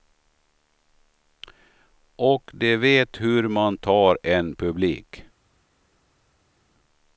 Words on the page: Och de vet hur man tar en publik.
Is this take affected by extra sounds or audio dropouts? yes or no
no